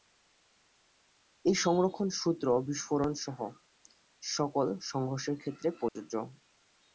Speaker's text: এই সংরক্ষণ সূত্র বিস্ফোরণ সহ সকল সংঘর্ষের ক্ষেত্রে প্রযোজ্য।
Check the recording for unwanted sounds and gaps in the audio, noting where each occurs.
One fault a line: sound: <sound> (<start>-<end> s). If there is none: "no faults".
sound: dropout (5.9-6.0 s)